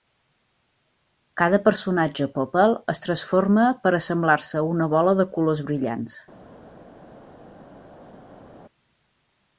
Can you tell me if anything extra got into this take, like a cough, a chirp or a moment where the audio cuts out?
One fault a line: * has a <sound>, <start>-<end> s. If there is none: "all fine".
all fine